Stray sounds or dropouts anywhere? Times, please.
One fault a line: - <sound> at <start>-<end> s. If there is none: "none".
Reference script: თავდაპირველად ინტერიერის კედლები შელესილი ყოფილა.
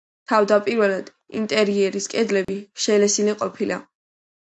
- dropout at 2.4-2.5 s